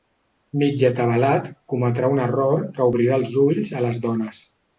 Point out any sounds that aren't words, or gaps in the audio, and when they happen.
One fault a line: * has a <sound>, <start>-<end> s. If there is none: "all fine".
all fine